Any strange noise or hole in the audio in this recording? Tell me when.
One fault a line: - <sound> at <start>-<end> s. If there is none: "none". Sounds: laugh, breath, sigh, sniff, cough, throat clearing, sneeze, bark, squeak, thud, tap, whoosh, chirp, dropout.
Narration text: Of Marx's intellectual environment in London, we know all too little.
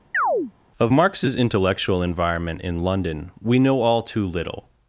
- chirp at 0.1-0.5 s